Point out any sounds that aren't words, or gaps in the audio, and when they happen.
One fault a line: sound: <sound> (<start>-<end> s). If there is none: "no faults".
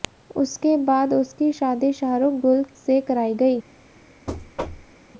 sound: thud (4.3-4.9 s)